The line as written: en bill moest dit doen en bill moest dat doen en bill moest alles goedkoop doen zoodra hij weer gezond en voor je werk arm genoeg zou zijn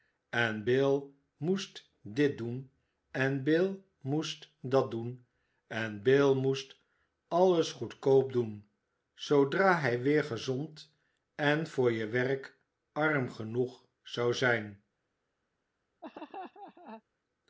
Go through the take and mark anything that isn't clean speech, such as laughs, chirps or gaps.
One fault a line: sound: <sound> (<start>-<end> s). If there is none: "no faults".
sound: laugh (16.0-17.0 s)